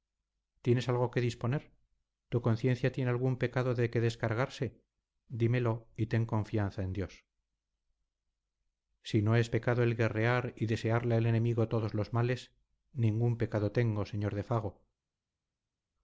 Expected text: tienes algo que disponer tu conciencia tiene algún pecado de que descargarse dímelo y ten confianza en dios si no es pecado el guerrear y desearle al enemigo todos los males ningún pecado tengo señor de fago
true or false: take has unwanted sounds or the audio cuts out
false